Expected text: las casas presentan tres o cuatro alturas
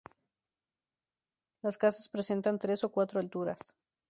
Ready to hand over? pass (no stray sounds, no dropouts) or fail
pass